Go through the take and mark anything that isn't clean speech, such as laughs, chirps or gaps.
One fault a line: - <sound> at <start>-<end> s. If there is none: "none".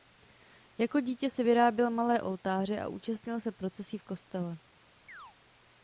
- chirp at 5.1-5.4 s